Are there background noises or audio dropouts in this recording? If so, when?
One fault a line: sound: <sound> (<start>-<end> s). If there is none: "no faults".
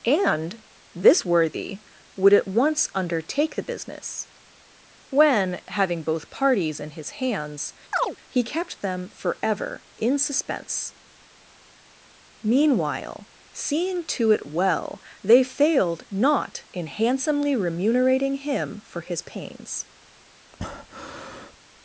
sound: chirp (7.9-8.2 s)
sound: breath (20.5-21.6 s)